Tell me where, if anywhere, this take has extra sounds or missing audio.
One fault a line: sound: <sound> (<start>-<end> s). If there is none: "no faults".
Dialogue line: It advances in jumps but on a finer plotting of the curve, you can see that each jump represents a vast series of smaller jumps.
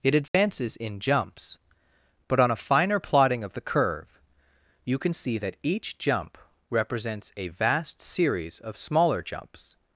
sound: dropout (0.3-0.3 s)